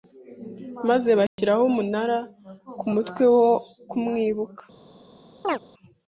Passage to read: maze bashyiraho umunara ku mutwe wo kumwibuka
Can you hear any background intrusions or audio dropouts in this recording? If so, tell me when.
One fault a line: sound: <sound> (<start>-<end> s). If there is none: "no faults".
sound: dropout (1.3-1.4 s)
sound: chirp (5.4-5.6 s)